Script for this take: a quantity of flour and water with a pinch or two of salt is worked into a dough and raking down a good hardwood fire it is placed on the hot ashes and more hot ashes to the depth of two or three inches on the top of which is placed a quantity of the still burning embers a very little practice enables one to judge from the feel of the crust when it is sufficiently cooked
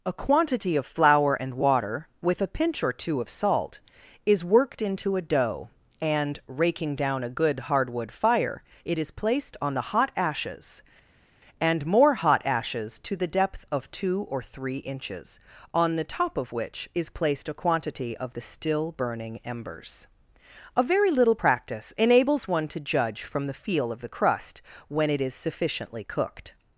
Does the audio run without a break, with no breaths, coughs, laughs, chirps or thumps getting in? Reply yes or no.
yes